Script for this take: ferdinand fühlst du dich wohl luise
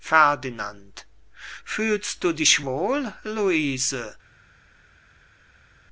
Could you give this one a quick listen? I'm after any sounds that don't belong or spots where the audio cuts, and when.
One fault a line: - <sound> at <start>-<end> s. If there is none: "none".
none